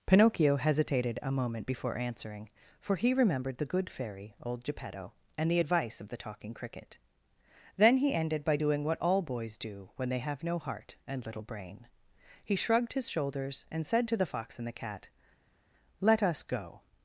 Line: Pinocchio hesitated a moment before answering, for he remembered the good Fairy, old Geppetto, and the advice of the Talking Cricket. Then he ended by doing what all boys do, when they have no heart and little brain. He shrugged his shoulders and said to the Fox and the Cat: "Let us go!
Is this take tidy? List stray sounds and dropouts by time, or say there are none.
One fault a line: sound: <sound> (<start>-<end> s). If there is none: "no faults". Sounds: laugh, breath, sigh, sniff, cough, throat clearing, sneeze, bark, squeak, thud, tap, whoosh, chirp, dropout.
no faults